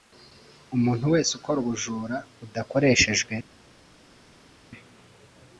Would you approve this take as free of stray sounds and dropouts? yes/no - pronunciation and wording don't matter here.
yes